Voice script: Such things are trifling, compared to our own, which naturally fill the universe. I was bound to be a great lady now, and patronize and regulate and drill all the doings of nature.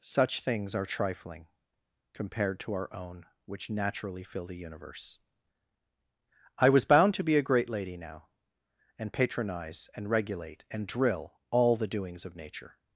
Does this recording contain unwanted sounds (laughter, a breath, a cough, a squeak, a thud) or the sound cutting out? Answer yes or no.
no